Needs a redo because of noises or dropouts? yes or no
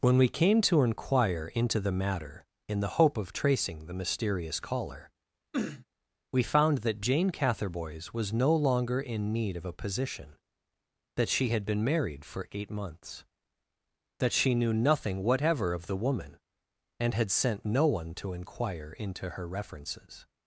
yes